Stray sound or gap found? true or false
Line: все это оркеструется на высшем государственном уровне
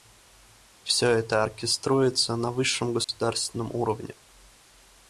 true